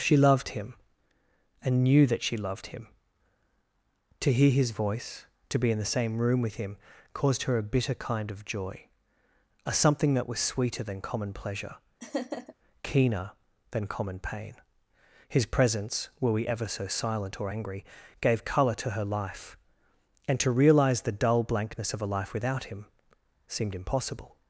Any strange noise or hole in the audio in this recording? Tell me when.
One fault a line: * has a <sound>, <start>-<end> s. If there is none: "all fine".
* has a laugh, 12.0-12.5 s